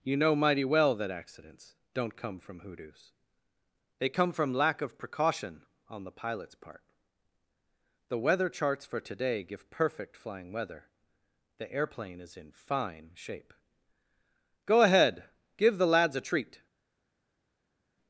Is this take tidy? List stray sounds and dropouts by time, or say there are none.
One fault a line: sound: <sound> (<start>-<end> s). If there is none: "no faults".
no faults